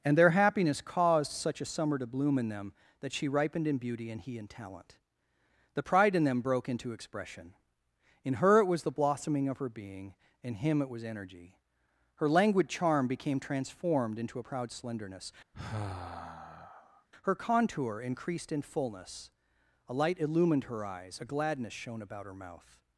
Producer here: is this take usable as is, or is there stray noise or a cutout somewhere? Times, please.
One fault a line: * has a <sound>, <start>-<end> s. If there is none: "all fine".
* has a sigh, 15.5-17.1 s